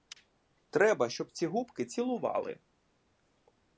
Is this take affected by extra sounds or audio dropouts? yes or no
no